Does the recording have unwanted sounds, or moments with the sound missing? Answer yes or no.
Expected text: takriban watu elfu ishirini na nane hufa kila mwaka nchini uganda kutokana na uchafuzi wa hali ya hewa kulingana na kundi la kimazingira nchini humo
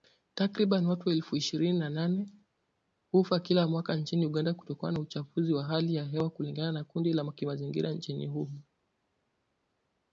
no